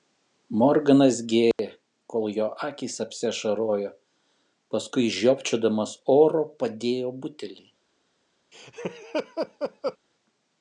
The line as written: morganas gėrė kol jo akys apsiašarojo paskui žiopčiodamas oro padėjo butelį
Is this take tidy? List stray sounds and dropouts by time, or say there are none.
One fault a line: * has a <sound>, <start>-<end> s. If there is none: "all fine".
* has a dropout, 1.5-1.6 s
* has a laugh, 8.5-10.0 s